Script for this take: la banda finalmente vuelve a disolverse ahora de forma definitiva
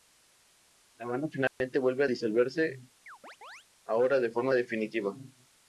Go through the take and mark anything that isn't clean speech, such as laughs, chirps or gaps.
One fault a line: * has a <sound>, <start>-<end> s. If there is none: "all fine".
* has a dropout, 1.5-1.6 s
* has a chirp, 3.1-3.7 s